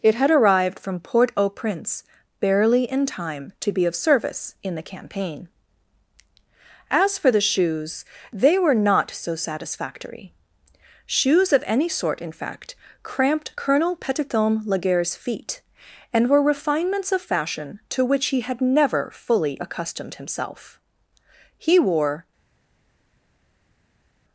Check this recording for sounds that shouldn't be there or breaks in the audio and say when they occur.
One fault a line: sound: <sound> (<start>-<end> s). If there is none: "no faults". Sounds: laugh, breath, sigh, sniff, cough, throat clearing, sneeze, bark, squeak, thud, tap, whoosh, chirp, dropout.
no faults